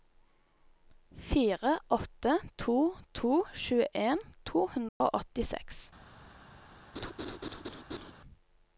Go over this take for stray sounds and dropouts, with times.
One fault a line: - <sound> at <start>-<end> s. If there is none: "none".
- dropout at 4.9-5.0 s
- laugh at 6.9-8.1 s